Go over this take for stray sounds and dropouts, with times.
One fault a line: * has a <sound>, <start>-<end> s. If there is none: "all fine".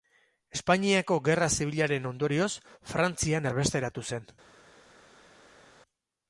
all fine